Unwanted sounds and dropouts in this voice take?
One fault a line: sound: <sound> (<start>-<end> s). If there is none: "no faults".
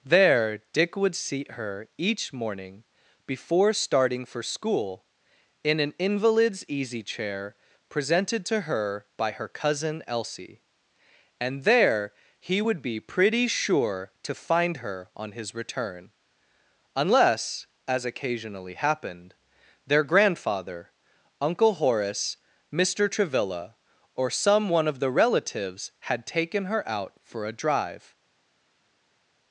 no faults